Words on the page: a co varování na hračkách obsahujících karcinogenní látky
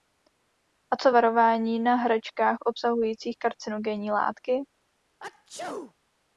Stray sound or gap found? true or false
true